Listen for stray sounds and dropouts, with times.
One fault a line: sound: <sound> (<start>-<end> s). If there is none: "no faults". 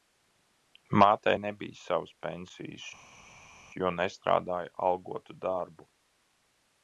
no faults